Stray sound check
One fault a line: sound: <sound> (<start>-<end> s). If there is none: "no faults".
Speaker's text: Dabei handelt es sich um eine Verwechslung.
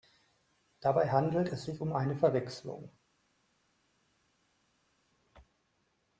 no faults